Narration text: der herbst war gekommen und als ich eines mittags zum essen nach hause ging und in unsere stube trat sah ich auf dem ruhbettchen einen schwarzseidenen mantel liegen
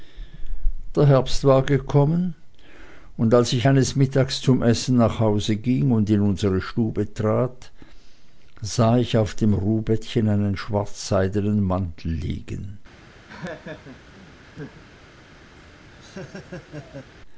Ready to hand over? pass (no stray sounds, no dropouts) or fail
fail